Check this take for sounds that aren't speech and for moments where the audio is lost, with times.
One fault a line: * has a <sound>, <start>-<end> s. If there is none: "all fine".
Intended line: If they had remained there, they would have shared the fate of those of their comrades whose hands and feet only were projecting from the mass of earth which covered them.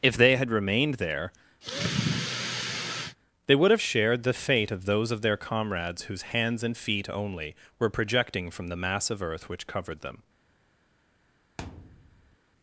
* has a sigh, 1.6-3.2 s
* has a thud, 11.6-12.4 s